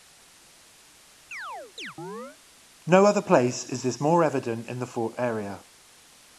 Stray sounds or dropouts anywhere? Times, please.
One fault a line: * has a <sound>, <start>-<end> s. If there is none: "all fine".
* has a chirp, 1.3-2.4 s